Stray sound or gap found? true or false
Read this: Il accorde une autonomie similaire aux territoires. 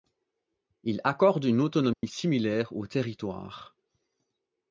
true